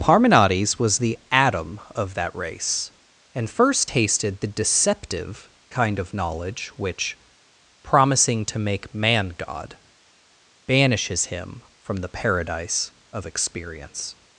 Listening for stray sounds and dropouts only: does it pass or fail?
pass